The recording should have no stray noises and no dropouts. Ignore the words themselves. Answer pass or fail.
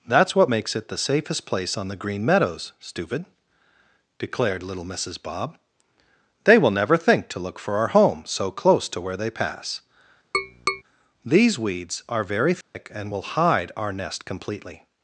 fail